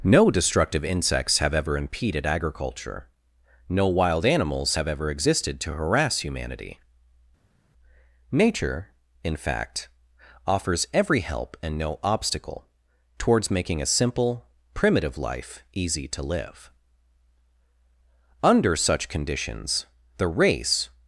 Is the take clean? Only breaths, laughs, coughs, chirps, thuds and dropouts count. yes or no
yes